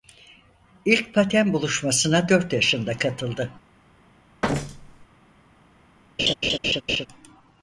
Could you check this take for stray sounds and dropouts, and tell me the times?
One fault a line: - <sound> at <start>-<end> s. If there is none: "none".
- thud at 4.4-5.1 s
- laugh at 6.2-7.1 s